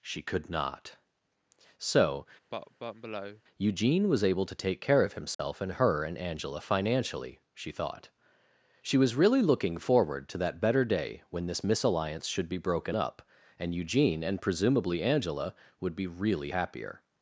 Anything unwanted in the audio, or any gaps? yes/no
yes